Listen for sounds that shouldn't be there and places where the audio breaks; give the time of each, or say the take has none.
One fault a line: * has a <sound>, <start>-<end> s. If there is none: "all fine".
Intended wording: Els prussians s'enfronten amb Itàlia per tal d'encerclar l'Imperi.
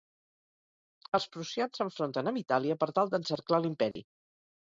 * has a dropout, 3.9-4.0 s